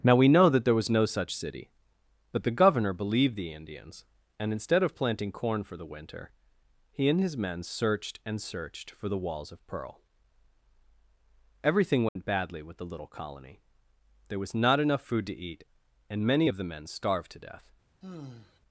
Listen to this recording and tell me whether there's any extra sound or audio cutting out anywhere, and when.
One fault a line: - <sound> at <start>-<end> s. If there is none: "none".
- dropout at 12.1-12.2 s
- sigh at 18.0-18.6 s